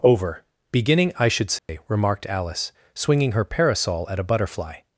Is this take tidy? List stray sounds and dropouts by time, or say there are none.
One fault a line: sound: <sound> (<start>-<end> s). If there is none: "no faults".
sound: dropout (1.6-1.7 s)